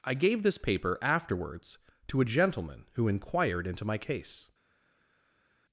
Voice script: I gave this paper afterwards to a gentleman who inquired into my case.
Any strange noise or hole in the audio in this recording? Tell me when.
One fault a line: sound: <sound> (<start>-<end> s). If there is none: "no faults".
no faults